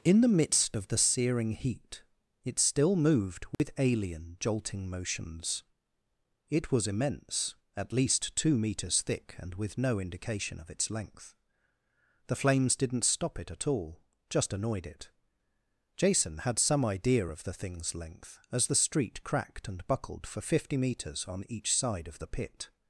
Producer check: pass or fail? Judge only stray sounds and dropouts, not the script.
fail